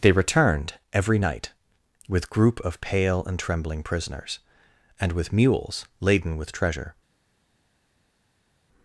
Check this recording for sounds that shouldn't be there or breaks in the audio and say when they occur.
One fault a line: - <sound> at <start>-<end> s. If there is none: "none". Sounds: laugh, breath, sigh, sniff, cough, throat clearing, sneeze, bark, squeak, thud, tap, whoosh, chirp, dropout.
none